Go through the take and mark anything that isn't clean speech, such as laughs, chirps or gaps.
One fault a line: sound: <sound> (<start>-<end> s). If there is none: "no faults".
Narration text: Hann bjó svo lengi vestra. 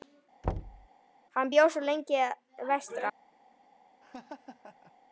sound: thud (0.4-0.9 s)
sound: laugh (4.0-4.9 s)